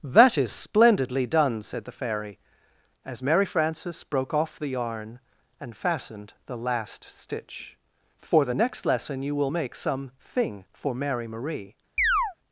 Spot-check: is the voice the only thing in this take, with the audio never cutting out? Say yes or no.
no